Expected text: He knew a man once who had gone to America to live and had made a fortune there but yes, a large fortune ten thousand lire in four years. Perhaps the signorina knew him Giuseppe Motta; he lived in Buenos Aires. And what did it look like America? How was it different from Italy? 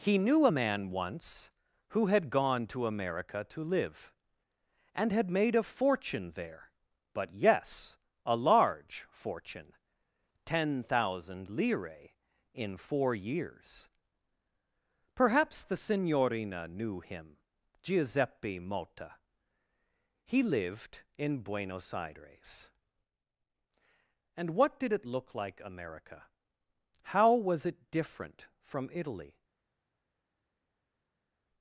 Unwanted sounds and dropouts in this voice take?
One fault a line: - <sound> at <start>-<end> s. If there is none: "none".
none